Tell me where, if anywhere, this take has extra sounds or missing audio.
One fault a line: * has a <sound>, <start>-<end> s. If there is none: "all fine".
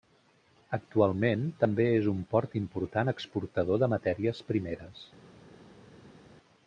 all fine